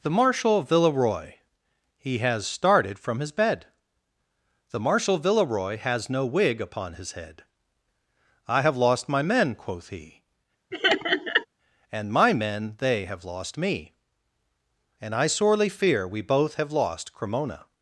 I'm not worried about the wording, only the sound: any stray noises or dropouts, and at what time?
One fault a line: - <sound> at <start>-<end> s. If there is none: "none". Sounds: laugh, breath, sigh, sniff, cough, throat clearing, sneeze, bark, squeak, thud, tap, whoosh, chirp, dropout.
- laugh at 10.7-11.5 s